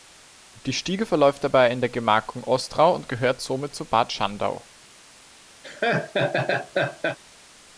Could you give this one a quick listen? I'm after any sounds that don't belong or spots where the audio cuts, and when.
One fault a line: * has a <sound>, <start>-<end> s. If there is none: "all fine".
* has a laugh, 5.6-7.2 s